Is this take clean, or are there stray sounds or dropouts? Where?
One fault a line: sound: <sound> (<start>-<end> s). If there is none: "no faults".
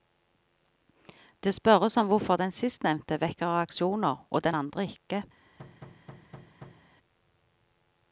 sound: thud (5.6-6.9 s)